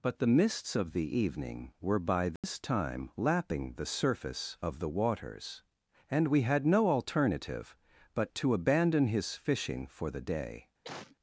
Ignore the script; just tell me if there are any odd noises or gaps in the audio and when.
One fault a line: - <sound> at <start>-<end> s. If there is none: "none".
- dropout at 2.4-2.4 s
- cough at 10.8-11.2 s